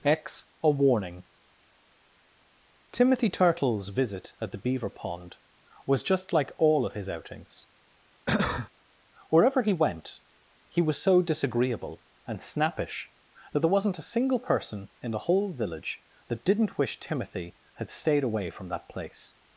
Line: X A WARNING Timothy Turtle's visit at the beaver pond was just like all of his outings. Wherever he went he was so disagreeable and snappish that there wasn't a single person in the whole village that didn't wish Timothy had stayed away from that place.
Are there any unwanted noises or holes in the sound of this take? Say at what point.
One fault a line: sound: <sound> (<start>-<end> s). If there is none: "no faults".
sound: cough (8.3-8.7 s)